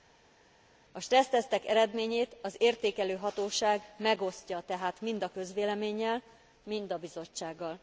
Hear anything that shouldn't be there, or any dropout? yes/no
no